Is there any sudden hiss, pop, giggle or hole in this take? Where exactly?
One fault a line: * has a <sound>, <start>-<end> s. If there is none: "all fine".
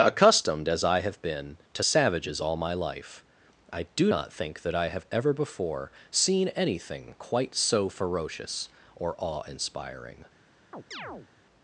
* has a chirp, 10.7-11.3 s